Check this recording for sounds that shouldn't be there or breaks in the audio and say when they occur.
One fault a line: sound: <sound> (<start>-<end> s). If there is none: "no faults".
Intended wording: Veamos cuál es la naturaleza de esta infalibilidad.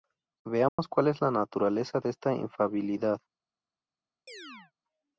sound: dropout (0.7-0.8 s)
sound: chirp (4.3-4.7 s)